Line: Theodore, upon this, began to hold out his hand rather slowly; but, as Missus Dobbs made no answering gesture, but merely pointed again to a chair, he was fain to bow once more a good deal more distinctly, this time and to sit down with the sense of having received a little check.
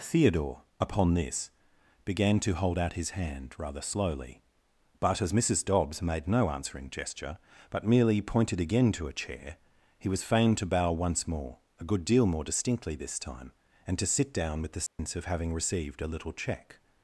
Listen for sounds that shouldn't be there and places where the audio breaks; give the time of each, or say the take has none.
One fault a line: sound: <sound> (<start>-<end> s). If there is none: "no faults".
sound: dropout (14.9-15.0 s)